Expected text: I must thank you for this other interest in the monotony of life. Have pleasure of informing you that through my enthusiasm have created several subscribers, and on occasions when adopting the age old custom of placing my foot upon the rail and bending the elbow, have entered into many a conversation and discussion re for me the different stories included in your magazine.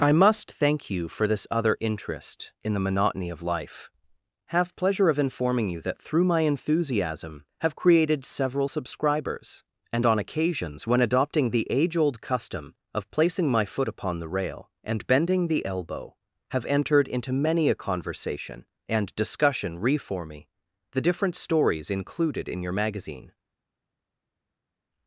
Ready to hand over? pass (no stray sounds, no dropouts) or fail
pass